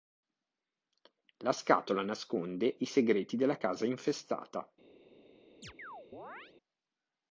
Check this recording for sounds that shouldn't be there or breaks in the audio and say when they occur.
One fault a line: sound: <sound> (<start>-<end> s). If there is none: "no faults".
sound: chirp (5.6-6.5 s)